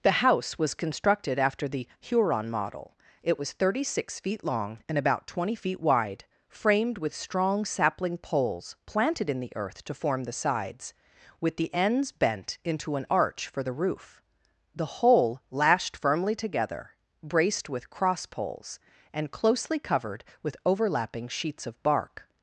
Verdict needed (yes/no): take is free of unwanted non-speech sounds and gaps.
yes